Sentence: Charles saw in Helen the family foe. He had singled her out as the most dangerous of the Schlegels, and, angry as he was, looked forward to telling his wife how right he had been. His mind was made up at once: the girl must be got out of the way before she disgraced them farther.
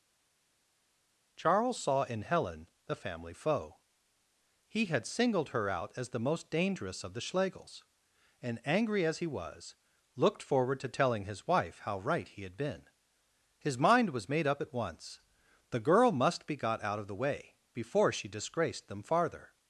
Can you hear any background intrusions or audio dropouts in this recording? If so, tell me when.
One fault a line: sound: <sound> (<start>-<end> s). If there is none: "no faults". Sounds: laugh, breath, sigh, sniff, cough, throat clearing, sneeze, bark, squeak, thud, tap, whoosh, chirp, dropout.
no faults